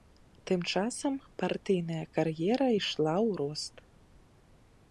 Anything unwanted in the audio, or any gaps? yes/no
no